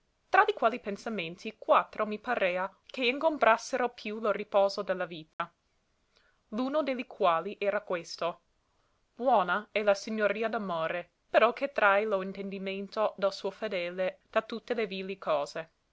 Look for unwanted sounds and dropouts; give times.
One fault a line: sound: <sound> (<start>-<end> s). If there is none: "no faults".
sound: dropout (5.3-5.4 s)